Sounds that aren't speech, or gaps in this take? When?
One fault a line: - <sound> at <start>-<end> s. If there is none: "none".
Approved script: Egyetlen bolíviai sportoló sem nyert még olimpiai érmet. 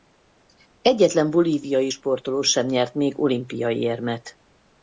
none